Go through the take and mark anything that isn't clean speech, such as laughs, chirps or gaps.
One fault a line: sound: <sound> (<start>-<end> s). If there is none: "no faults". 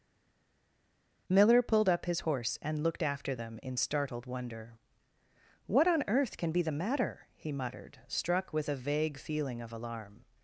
no faults